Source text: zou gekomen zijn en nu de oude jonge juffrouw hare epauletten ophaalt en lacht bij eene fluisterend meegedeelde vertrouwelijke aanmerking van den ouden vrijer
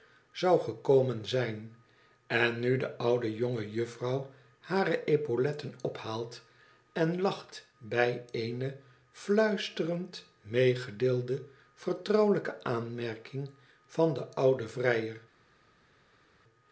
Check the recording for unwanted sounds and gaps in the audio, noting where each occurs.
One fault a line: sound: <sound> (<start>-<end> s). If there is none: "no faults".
no faults